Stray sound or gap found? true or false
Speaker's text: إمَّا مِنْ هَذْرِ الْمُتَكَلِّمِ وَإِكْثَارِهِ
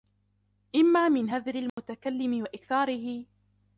true